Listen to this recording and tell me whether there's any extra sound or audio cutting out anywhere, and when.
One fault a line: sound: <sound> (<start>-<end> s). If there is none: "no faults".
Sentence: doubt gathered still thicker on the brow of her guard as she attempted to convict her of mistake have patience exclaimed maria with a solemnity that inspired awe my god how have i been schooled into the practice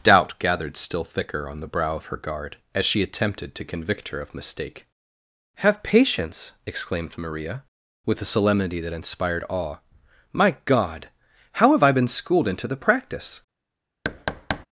sound: thud (14.0-14.7 s)